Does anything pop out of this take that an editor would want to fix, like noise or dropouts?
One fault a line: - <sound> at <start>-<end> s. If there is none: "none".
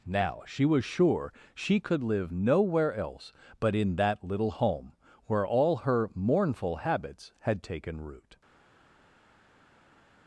none